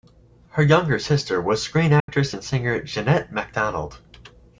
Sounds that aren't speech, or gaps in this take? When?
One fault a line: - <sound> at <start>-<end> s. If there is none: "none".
- dropout at 2.0-2.1 s